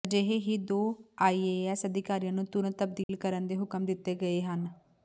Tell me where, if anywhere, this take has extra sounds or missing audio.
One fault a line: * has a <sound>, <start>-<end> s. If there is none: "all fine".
* has a dropout, 3.0-3.1 s